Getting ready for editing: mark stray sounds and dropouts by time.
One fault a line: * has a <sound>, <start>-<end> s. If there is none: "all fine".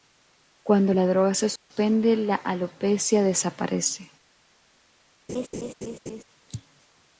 * has a dropout, 1.6-1.7 s
* has a laugh, 5.3-6.2 s